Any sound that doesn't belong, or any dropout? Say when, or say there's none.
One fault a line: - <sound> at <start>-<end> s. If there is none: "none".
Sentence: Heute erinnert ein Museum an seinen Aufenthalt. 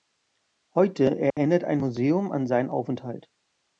- dropout at 1.3-1.4 s